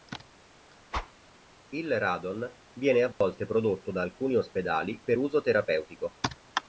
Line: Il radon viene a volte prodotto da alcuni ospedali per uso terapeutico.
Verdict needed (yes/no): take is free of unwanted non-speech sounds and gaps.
no